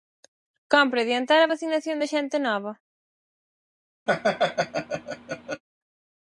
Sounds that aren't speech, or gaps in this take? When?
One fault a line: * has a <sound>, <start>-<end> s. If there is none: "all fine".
* has a laugh, 4.1-5.6 s